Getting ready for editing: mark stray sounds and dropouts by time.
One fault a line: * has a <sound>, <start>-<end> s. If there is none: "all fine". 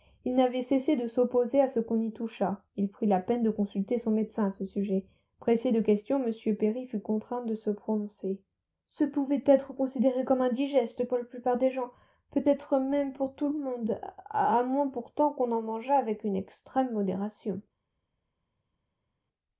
all fine